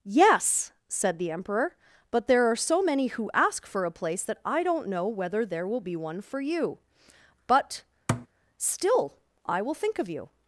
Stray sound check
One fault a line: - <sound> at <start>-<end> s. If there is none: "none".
- thud at 8.1-8.3 s